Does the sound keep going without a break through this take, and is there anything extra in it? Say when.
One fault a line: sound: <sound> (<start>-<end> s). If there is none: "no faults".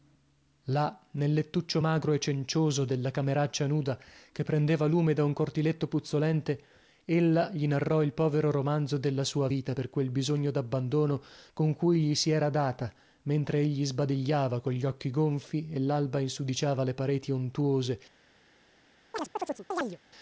sound: chirp (19.1-20.0 s)